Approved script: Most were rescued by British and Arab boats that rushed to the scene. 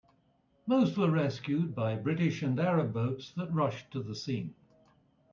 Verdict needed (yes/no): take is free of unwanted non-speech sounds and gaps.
yes